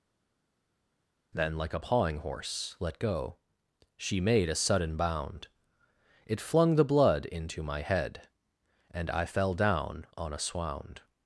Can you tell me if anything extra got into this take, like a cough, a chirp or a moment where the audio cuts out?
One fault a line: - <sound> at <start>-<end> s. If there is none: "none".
none